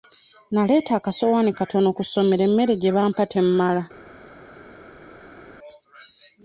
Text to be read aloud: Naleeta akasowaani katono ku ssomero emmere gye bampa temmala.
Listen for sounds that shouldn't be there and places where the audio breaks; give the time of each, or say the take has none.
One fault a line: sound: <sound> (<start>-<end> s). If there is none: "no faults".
no faults